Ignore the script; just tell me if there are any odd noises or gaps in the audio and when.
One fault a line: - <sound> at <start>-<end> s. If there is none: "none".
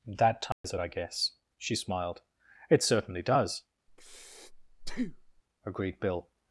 - dropout at 0.5-0.6 s
- breath at 3.9-5.4 s